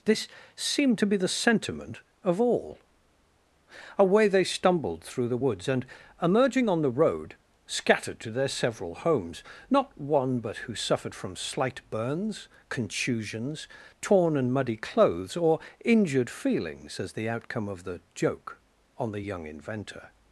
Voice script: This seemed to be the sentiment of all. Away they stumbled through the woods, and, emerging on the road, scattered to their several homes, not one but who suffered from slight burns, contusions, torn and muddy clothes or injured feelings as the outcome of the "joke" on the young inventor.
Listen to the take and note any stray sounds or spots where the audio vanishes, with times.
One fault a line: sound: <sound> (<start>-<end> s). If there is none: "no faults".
no faults